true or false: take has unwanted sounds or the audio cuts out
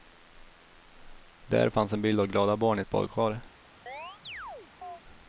true